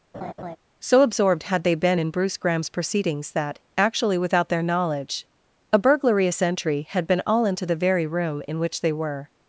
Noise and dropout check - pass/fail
fail